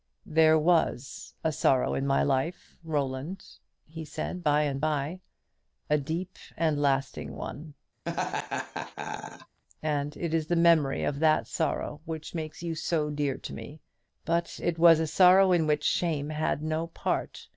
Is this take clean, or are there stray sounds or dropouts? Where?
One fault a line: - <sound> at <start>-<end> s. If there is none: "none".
- laugh at 8.0-9.6 s